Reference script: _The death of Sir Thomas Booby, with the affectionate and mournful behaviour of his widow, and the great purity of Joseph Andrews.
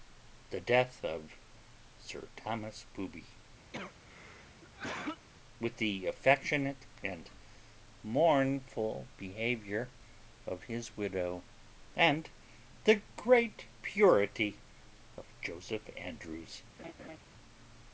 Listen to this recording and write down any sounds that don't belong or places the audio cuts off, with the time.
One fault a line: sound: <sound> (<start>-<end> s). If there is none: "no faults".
sound: cough (3.7-5.3 s)
sound: laugh (16.8-17.2 s)